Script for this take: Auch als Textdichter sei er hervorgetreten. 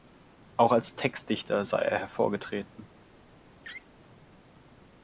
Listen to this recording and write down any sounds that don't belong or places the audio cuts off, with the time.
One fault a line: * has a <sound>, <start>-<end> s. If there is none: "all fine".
* has a laugh, 3.6-3.9 s